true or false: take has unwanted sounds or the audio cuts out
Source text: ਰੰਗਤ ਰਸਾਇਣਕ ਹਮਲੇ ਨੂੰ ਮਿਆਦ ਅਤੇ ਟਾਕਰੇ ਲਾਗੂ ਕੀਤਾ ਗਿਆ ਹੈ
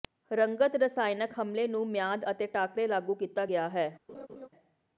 true